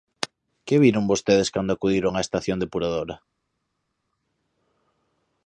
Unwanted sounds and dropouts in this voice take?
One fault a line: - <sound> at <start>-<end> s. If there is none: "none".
none